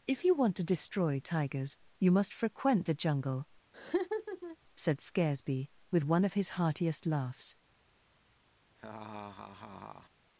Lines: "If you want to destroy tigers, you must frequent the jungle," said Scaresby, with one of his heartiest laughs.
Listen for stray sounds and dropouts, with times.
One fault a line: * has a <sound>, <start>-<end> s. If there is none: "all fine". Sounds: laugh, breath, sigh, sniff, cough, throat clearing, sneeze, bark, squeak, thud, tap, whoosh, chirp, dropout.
* has a laugh, 3.7-4.6 s
* has a laugh, 8.8-10.1 s